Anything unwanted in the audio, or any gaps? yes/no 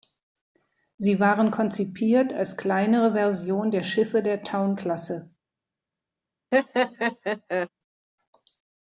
yes